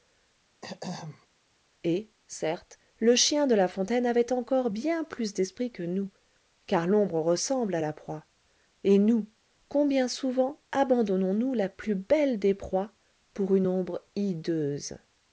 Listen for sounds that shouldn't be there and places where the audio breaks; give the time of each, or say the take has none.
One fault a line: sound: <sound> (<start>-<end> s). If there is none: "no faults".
sound: throat clearing (0.6-1.3 s)